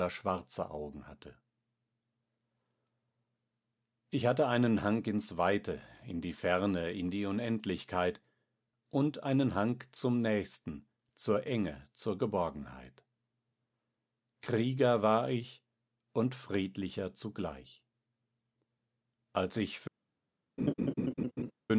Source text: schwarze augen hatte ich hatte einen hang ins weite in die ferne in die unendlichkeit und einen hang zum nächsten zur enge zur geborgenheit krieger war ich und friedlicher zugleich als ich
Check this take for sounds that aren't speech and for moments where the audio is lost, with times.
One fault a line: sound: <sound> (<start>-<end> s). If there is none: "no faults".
sound: laugh (20.6-21.5 s)